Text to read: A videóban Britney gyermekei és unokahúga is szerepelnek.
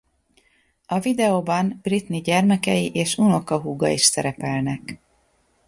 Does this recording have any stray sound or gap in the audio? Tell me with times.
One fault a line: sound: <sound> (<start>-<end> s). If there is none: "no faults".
no faults